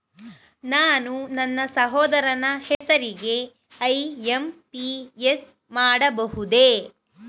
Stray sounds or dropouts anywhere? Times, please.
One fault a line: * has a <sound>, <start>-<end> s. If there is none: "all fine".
* has a dropout, 2.7-2.8 s